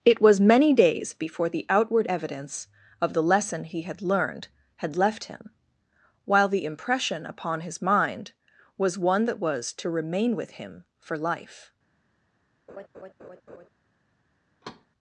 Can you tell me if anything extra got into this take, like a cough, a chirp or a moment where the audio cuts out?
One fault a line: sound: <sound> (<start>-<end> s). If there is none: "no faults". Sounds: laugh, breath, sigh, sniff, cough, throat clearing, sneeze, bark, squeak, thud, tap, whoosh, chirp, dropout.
sound: laugh (12.7-13.7 s)
sound: thud (14.6-14.9 s)